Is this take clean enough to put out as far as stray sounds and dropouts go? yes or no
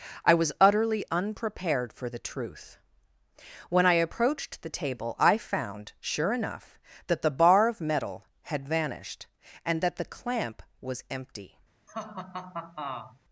no